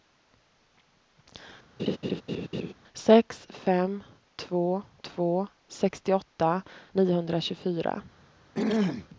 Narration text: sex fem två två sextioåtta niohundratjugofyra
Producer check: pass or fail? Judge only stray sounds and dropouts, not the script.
fail